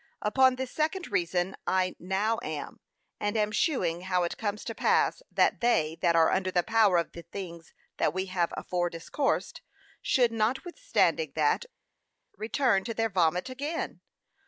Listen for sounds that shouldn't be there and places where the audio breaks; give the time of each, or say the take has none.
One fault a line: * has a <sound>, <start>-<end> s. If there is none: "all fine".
all fine